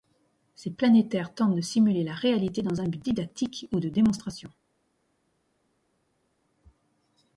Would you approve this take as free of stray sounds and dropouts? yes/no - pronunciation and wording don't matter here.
yes